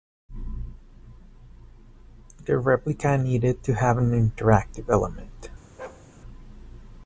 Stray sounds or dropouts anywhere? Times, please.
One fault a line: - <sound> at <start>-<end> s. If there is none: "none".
- bark at 5.8-6.1 s